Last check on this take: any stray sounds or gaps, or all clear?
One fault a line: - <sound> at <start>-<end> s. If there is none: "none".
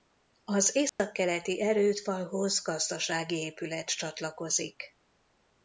- dropout at 0.9-1.0 s